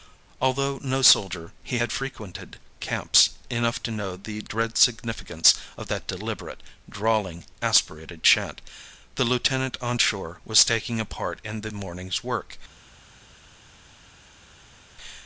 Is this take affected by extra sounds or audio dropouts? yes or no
no